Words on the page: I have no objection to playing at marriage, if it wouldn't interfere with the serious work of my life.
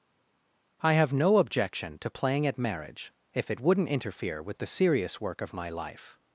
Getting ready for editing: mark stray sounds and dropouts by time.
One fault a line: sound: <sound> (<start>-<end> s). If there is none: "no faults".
no faults